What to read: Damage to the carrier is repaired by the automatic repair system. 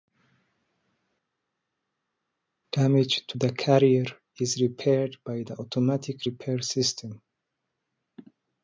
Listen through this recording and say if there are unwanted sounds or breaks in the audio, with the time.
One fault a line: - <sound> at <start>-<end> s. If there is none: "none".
none